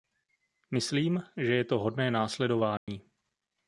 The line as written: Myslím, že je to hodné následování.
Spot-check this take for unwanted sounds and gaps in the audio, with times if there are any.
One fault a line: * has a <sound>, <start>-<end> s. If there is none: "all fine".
* has a dropout, 2.8-2.9 s